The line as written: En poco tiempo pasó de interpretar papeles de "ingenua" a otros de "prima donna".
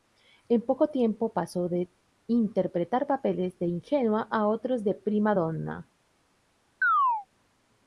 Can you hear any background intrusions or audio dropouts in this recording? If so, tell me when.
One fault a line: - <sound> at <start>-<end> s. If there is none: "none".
- chirp at 6.8-7.3 s